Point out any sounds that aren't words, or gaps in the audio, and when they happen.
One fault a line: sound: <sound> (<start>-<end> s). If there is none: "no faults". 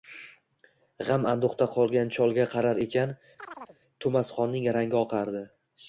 sound: chirp (3.4-3.8 s)